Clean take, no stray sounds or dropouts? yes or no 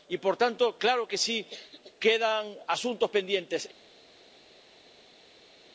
yes